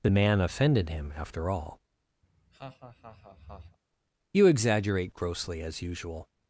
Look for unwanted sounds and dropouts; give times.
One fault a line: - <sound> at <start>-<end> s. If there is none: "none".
- laugh at 2.2-3.8 s